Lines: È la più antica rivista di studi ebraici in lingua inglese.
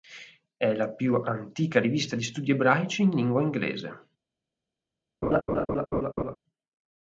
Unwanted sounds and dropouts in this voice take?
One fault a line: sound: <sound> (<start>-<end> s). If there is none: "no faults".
sound: laugh (5.2-6.4 s)